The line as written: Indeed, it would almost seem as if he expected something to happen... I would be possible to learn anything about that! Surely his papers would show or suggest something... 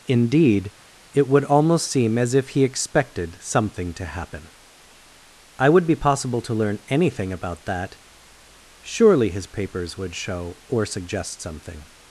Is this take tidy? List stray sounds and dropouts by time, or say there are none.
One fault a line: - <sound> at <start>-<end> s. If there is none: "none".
none